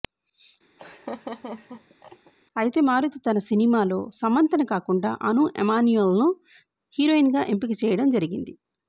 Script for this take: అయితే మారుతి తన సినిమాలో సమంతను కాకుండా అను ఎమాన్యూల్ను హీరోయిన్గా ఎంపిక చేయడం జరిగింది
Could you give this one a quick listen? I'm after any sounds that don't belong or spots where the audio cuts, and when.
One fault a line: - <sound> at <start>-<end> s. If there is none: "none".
- laugh at 0.8-2.3 s